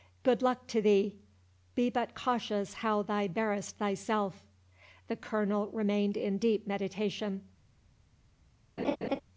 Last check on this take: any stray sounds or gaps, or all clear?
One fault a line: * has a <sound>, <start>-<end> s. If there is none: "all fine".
* has a laugh, 8.8-9.2 s